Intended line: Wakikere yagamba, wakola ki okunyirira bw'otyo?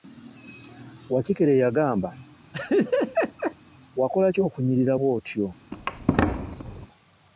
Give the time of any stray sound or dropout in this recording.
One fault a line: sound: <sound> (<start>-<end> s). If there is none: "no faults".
sound: laugh (2.5-3.6 s)
sound: squeak (5.7-6.9 s)